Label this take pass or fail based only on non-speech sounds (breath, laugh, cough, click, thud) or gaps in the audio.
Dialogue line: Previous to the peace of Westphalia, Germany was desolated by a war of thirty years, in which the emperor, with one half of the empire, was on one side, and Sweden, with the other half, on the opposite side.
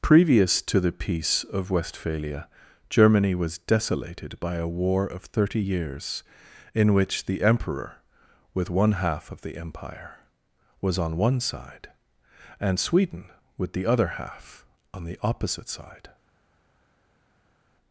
pass